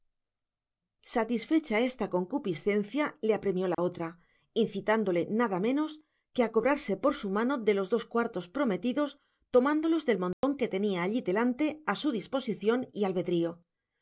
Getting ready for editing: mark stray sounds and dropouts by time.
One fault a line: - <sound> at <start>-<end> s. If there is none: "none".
- dropout at 3.7-3.8 s
- dropout at 10.3-10.4 s